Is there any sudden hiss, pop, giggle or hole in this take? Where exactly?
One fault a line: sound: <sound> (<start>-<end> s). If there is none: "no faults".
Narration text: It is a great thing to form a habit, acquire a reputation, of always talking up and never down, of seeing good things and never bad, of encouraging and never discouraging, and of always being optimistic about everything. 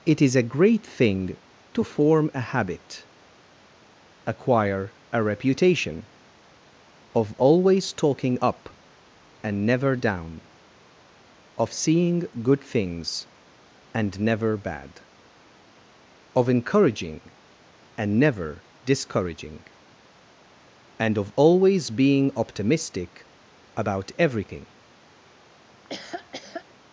sound: laugh (25.7-26.7 s)